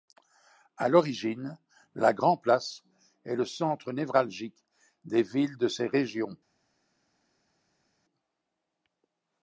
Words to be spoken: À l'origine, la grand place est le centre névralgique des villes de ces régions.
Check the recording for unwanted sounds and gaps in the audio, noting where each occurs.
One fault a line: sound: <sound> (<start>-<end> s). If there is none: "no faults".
no faults